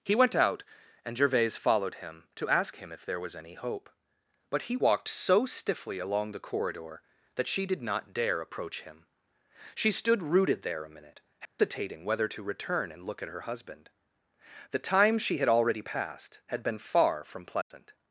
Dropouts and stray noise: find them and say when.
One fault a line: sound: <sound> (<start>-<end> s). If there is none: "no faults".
sound: dropout (11.5-11.6 s)
sound: dropout (17.6-17.7 s)